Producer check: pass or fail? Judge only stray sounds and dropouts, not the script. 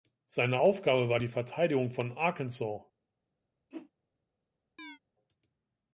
fail